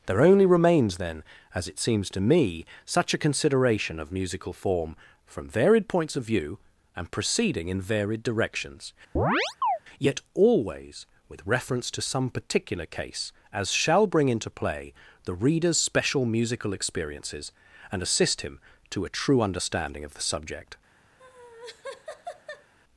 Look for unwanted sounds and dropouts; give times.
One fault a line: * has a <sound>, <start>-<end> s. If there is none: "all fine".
* has a chirp, 9.2-9.8 s
* has a laugh, 21.2-22.7 s